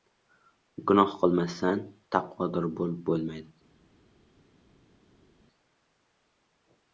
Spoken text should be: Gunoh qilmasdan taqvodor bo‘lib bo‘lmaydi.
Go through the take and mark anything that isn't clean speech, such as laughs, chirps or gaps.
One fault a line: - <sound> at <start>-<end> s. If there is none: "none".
none